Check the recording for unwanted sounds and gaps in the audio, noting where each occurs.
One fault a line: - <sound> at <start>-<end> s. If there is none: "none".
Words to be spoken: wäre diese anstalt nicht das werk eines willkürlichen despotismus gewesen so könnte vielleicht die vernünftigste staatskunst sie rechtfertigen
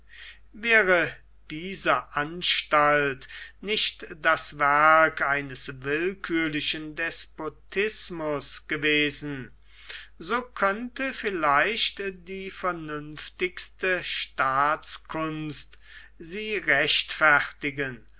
none